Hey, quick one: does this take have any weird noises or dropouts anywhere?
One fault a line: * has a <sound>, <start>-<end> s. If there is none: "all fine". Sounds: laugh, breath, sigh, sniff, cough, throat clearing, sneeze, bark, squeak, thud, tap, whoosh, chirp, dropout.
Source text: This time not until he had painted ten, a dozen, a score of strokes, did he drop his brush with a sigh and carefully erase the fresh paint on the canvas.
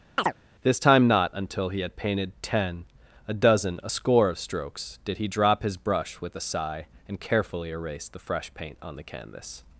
* has a chirp, 0.2-0.3 s